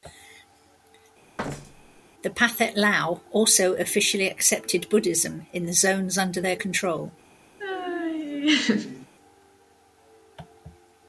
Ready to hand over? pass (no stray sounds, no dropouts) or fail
fail